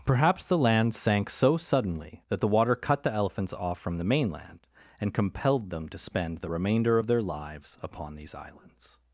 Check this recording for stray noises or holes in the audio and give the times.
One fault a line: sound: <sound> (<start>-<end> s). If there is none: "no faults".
no faults